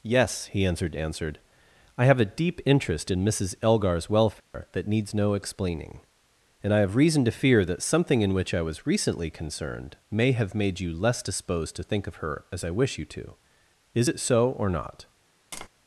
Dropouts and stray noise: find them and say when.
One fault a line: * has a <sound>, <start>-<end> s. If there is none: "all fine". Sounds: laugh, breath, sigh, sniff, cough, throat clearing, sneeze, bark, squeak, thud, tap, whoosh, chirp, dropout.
* has a dropout, 4.4-4.5 s
* has a tap, 15.5-15.7 s